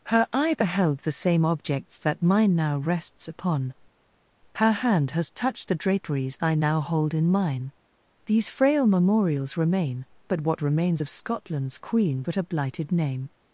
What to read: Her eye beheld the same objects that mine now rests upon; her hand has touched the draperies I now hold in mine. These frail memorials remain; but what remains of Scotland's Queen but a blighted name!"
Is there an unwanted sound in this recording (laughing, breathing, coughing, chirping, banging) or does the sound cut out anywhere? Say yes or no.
no